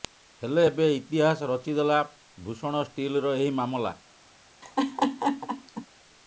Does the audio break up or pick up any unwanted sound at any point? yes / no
yes